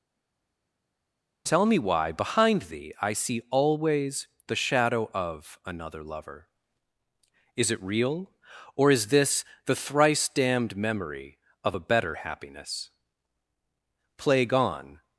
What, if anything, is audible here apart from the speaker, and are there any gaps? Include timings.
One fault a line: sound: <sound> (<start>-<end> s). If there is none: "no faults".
no faults